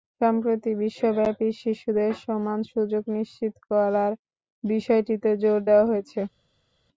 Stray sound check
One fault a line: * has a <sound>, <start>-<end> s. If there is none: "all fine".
all fine